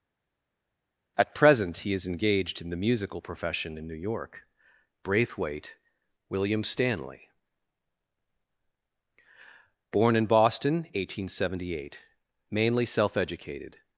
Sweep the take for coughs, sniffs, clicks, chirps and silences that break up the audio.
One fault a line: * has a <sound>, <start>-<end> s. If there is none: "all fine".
all fine